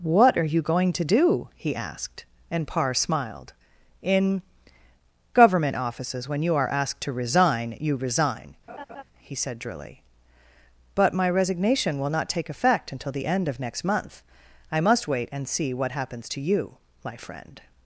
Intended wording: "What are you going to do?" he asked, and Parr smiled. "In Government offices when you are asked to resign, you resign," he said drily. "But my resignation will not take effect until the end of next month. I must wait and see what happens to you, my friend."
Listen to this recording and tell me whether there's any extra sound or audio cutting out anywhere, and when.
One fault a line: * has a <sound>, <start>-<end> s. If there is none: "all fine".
* has a laugh, 8.7-9.0 s